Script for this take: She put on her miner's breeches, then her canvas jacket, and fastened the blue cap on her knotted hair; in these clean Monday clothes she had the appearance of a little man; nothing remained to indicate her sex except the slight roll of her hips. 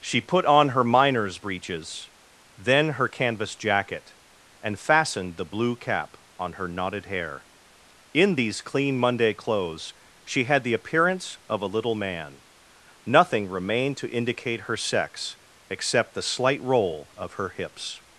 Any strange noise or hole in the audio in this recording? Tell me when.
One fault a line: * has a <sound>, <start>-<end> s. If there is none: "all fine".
all fine